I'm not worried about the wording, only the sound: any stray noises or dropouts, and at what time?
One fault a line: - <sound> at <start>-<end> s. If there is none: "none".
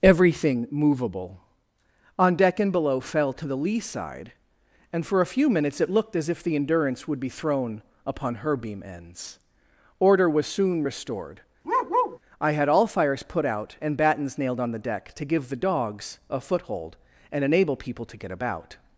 - bark at 11.6-12.2 s